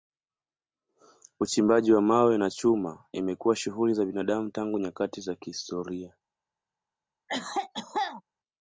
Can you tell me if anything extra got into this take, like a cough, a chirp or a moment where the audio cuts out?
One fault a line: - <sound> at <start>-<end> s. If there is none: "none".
- cough at 7.3-8.2 s